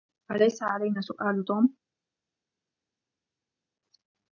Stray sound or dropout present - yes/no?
no